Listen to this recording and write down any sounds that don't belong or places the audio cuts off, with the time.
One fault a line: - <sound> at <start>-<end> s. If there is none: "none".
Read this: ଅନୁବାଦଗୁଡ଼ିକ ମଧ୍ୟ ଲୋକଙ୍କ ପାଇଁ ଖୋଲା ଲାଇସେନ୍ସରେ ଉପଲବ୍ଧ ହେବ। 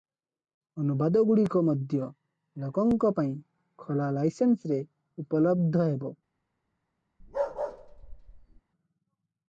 - bark at 7.2-8.6 s